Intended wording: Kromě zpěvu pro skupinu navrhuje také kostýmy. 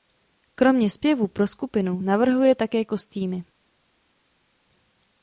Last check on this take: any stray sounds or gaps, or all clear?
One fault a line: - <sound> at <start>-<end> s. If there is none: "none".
none